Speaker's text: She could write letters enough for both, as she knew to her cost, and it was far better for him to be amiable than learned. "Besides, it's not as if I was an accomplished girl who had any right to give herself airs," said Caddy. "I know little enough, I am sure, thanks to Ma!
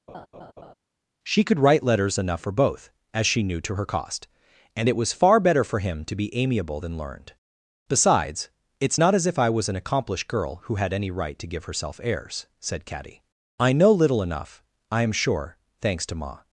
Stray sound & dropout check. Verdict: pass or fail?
fail